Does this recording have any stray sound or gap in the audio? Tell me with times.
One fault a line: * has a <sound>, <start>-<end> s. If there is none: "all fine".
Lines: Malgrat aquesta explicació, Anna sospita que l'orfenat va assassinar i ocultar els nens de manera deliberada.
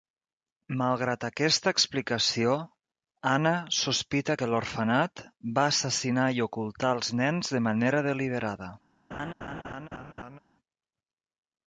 * has a laugh, 9.1-10.4 s